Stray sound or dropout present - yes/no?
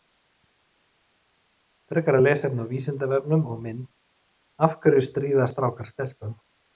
no